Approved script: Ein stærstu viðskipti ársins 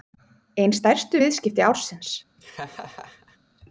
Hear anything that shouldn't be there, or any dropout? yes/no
yes